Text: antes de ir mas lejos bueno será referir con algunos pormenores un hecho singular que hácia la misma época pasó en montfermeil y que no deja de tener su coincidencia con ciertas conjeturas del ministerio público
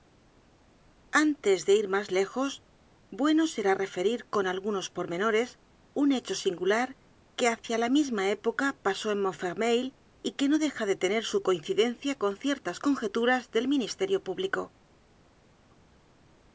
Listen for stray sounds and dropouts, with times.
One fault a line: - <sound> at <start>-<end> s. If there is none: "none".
none